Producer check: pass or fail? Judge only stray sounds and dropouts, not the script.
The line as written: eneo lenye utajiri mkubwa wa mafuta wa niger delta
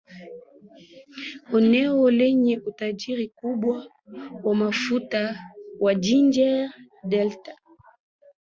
pass